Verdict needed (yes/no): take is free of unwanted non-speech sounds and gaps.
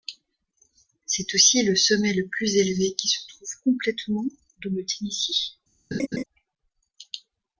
no